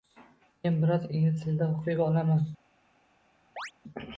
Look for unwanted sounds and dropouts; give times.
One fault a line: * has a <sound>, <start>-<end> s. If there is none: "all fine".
* has a chirp, 3.6-3.7 s